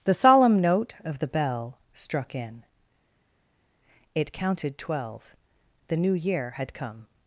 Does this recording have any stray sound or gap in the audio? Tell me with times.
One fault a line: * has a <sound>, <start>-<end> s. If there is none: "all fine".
all fine